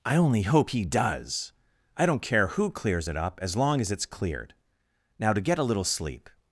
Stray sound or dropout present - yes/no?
no